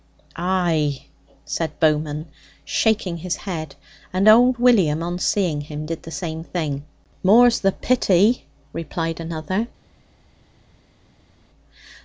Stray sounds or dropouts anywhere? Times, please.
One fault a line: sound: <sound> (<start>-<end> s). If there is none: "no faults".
no faults